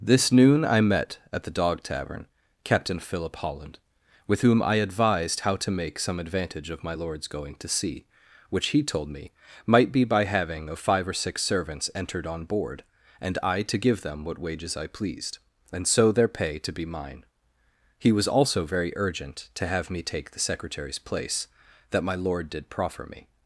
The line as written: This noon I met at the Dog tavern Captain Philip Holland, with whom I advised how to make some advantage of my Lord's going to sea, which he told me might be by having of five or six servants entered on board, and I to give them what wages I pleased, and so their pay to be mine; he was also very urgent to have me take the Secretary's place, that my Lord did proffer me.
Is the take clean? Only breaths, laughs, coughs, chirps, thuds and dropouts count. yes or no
yes